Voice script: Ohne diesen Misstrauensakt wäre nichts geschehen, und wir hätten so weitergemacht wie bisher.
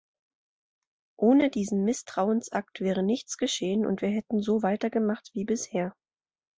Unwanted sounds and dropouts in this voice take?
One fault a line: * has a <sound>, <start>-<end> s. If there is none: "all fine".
all fine